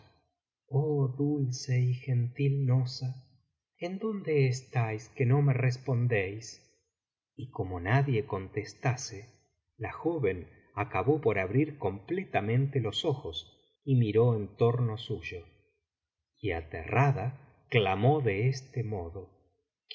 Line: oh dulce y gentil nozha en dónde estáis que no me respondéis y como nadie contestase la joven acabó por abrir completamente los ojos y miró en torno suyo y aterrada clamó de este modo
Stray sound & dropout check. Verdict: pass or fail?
pass